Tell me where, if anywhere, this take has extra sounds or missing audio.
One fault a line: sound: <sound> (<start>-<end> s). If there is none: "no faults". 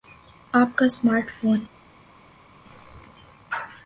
no faults